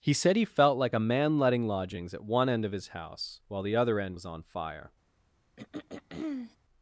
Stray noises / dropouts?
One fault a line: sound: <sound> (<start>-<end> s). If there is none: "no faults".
sound: throat clearing (5.6-6.6 s)